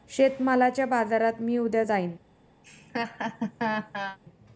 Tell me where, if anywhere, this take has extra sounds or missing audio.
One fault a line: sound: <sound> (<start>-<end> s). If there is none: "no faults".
sound: laugh (2.6-4.2 s)